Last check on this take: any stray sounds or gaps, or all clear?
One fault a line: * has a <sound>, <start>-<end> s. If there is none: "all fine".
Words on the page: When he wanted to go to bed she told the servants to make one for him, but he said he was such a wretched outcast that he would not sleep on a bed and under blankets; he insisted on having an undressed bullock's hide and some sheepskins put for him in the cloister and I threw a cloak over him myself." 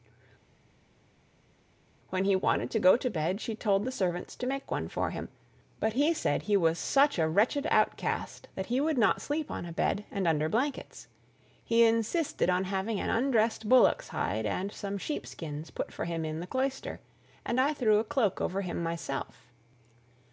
all fine